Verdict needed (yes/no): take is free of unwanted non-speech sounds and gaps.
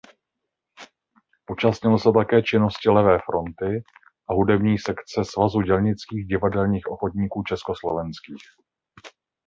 yes